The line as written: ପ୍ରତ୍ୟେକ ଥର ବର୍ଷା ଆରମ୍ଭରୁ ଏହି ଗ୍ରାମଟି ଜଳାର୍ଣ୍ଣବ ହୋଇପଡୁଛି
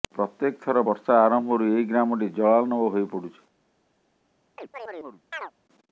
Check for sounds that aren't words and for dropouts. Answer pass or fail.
fail